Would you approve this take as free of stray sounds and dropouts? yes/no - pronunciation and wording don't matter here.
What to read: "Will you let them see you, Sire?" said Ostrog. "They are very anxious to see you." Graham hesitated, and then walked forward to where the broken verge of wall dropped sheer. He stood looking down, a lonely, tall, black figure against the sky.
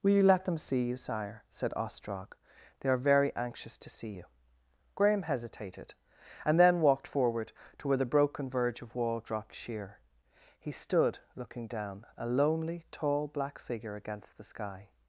yes